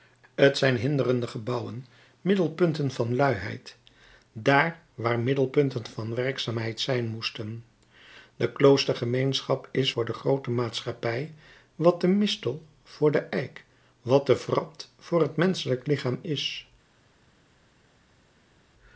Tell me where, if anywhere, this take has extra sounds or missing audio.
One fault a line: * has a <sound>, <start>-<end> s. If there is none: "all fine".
all fine